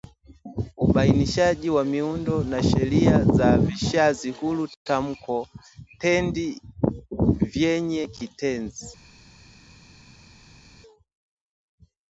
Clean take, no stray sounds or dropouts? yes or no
yes